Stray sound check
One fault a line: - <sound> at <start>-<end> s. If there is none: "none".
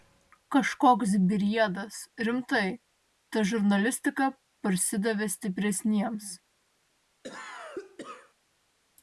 - cough at 7.2-8.3 s